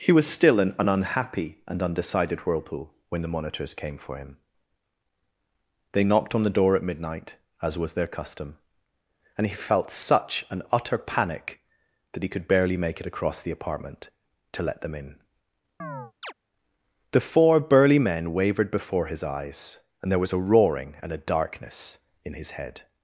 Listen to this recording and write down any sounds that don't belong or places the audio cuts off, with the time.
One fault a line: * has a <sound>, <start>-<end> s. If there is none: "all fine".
* has a chirp, 15.8-16.3 s